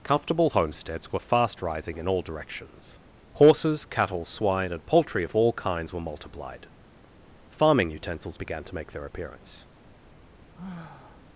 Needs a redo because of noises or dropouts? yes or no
yes